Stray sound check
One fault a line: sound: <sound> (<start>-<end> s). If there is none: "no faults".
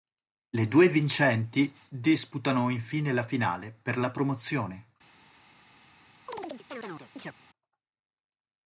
sound: chirp (6.3-7.3 s)